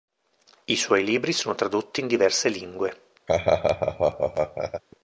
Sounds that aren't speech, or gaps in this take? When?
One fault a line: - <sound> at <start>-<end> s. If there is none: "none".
- laugh at 3.3-4.8 s